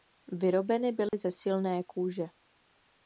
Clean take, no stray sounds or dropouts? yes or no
no